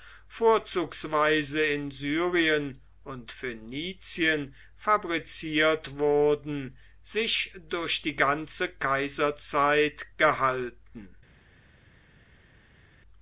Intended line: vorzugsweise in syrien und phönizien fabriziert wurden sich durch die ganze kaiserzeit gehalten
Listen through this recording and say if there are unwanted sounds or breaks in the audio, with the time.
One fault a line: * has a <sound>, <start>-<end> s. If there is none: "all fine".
all fine